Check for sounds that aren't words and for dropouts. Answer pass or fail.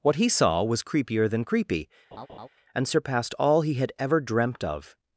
fail